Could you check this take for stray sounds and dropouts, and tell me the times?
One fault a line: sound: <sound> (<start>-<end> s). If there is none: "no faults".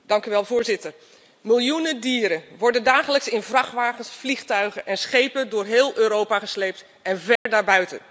sound: dropout (7.4-7.5 s)